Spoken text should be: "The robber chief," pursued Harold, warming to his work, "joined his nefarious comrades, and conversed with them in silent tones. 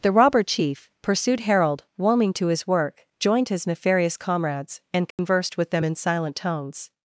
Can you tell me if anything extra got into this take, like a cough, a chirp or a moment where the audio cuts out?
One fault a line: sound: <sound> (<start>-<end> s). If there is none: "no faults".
sound: dropout (5.1-5.2 s)